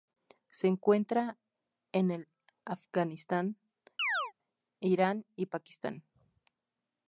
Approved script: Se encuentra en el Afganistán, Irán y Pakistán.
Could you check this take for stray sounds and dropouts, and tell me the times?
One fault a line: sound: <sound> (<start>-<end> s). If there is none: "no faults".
sound: chirp (4.0-4.3 s)